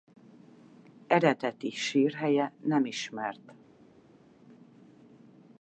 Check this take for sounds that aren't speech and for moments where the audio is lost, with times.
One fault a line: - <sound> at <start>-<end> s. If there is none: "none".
none